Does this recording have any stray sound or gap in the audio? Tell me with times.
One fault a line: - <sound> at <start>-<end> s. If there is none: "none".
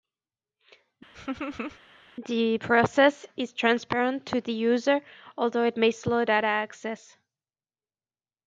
- laugh at 1.1-1.8 s